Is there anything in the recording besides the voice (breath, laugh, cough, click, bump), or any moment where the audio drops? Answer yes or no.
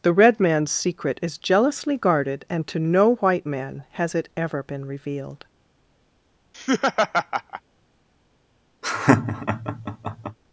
yes